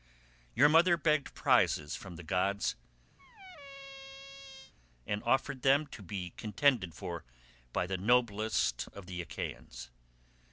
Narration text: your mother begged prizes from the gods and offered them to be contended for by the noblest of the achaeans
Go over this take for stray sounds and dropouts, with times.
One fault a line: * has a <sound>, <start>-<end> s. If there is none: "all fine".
* has a squeak, 3.2-4.7 s